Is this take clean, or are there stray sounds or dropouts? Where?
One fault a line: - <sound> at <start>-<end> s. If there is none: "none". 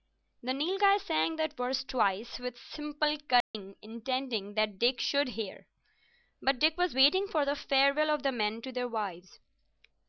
- dropout at 3.4-3.5 s